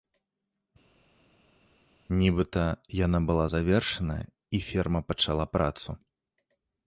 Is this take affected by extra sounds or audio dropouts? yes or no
no